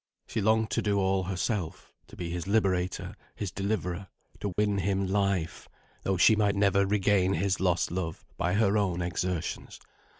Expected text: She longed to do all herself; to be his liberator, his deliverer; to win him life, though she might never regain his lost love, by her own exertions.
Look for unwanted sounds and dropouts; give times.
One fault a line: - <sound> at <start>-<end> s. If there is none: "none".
- dropout at 4.5-4.6 s